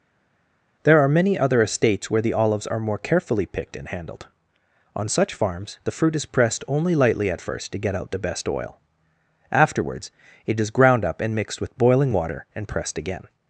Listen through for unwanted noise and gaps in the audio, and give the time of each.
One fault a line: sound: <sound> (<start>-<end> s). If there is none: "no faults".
no faults